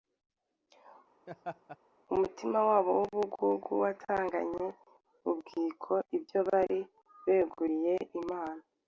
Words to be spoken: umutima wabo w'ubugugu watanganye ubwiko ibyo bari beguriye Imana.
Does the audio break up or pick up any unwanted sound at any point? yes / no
yes